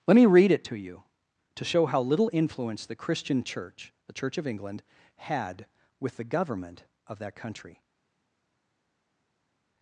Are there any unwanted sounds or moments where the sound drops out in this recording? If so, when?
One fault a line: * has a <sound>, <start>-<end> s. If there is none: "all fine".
all fine